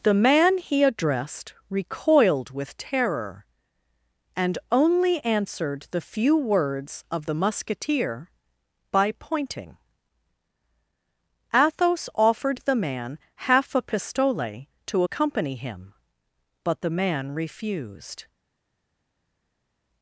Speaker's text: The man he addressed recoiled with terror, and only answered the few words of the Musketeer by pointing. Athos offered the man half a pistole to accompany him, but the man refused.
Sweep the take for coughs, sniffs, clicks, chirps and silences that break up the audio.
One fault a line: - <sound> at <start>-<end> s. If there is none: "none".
none